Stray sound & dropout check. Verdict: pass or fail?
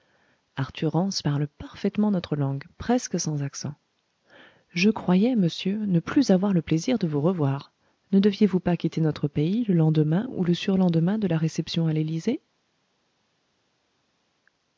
pass